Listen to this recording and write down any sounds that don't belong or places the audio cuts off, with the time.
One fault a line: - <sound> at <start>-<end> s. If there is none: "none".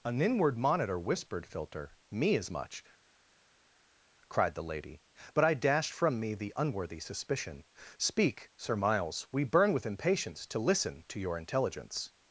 none